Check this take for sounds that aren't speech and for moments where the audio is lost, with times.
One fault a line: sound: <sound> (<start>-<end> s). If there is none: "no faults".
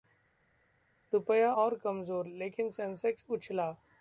no faults